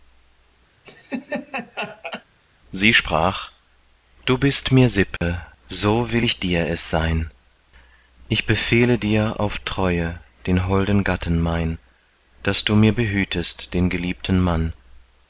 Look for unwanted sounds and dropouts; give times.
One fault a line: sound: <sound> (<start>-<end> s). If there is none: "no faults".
sound: laugh (0.8-2.2 s)
sound: dropout (5.2-5.2 s)